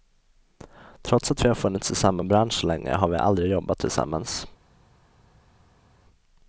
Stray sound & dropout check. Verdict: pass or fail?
pass